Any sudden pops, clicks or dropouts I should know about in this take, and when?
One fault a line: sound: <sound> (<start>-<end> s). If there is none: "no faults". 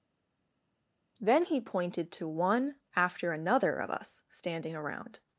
no faults